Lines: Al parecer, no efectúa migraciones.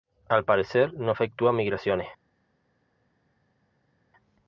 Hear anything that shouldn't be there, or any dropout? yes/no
no